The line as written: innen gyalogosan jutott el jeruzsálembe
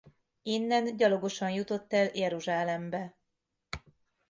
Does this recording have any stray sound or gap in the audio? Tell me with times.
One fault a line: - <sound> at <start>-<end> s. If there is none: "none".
none